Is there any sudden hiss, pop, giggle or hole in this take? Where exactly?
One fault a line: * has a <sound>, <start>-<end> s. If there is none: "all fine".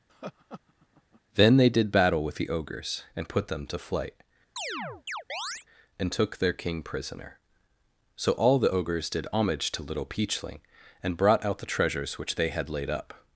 * has a laugh, 0.1-1.2 s
* has a chirp, 4.6-5.7 s